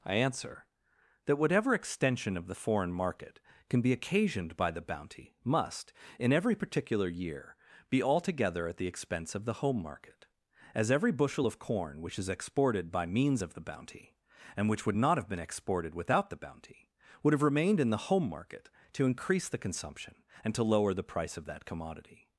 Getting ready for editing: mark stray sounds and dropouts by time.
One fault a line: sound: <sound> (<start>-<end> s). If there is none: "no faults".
no faults